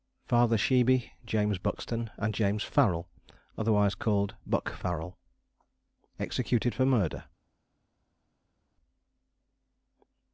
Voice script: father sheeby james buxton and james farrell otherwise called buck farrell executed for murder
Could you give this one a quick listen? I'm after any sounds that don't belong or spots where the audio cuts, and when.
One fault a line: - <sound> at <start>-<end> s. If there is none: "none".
none